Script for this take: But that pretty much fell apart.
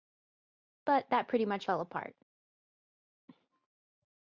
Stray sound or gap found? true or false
false